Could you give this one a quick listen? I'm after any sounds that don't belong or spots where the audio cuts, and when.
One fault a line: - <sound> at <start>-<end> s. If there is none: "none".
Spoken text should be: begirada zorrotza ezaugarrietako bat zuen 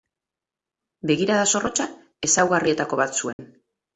- dropout at 3.3-3.4 s